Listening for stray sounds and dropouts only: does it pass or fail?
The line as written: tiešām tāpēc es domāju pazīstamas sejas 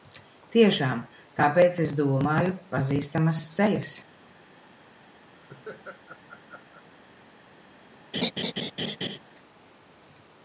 fail